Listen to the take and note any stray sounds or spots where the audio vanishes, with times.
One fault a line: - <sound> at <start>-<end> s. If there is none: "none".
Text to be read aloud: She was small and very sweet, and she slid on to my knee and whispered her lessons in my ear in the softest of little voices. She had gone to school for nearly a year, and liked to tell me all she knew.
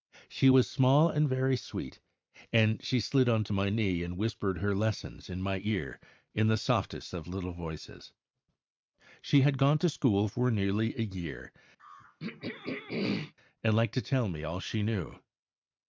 - throat clearing at 11.8-13.3 s